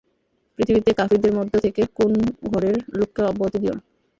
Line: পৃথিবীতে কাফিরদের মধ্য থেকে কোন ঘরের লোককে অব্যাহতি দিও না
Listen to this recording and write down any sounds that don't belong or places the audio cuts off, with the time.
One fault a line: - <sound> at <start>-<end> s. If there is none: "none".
none